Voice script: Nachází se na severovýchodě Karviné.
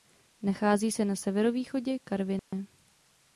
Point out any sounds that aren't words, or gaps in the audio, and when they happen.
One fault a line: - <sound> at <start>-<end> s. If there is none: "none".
- dropout at 2.4-2.5 s